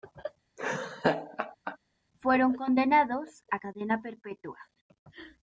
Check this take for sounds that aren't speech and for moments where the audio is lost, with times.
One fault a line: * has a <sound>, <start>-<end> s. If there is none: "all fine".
* has a laugh, 0.6-1.8 s